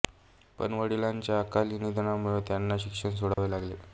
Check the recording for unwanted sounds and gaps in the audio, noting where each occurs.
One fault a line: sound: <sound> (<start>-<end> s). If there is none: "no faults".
sound: dropout (3.3-3.4 s)